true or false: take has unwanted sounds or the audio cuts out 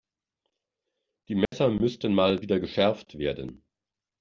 true